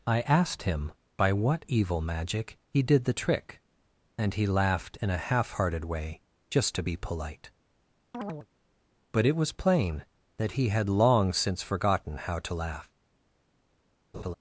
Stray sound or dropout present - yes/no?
yes